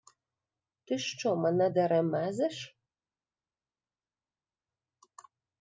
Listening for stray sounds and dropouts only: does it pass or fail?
pass